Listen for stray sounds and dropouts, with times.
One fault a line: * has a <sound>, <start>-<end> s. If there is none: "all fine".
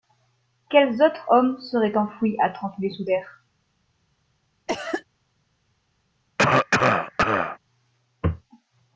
* has a cough, 4.7-5.0 s
* has a cough, 6.4-7.6 s